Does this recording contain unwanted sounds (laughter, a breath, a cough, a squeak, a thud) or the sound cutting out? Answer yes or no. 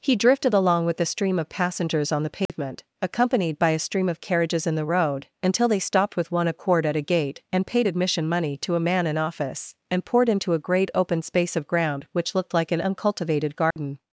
yes